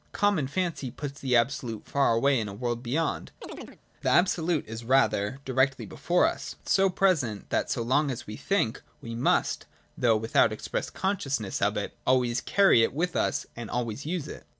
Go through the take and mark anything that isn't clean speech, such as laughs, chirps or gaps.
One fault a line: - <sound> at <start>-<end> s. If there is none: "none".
- chirp at 3.4-3.8 s